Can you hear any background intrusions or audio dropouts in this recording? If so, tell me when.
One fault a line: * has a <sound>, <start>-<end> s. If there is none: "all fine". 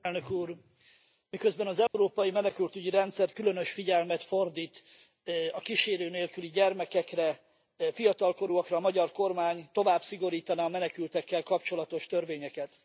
* has a dropout, 1.9-1.9 s